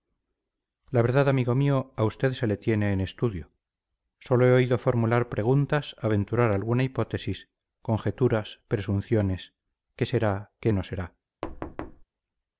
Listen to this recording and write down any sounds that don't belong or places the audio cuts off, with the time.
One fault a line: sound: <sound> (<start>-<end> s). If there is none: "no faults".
sound: thud (11.4-12.0 s)